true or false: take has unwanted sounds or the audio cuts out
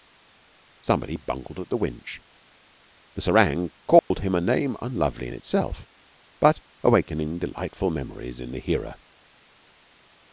true